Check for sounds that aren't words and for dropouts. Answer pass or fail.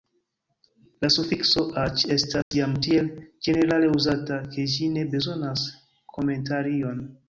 fail